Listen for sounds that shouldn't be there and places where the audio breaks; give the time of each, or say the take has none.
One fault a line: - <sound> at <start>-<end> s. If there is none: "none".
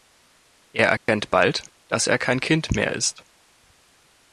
- dropout at 1.0-1.1 s